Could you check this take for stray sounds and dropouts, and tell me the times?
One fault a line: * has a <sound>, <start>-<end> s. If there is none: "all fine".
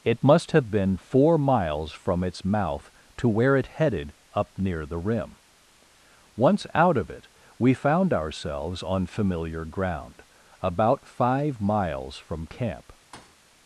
* has a thud, 13.1-13.4 s